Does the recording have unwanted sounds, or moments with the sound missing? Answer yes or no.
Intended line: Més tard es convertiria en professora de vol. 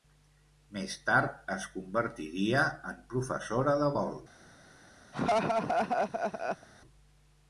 yes